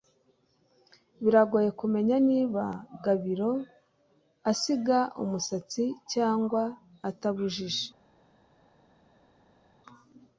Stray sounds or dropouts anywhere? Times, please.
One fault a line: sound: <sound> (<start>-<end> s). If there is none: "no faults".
no faults